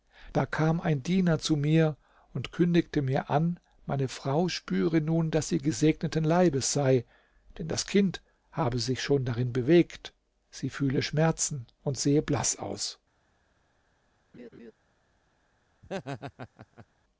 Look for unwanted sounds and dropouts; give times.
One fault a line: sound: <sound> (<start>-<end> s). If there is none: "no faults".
sound: laugh (14.3-14.7 s)
sound: laugh (15.8-16.9 s)